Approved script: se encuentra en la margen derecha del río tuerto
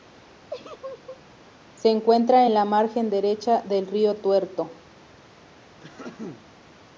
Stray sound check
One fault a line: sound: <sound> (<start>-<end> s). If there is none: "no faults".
sound: laugh (0.5-1.2 s)
sound: throat clearing (5.8-6.5 s)